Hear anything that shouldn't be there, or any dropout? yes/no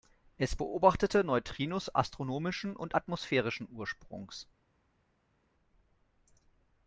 no